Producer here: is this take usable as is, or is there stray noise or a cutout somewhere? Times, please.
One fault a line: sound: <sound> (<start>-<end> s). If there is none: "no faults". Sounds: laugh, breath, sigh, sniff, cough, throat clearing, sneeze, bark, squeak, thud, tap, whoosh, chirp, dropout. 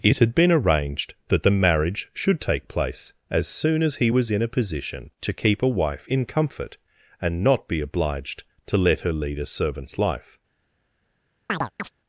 sound: chirp (11.5-11.9 s)